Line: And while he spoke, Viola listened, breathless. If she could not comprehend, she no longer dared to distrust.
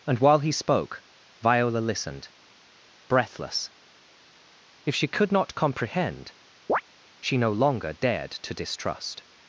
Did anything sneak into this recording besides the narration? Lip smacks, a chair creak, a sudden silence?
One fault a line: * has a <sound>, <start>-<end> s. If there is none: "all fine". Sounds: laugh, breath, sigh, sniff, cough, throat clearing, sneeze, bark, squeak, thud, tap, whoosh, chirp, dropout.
* has a chirp, 6.7-6.8 s